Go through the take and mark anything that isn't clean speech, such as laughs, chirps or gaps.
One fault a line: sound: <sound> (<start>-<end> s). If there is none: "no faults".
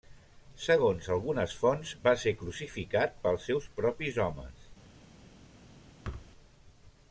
sound: thud (6.0-6.3 s)